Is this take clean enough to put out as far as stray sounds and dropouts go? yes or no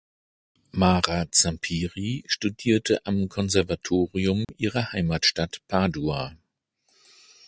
no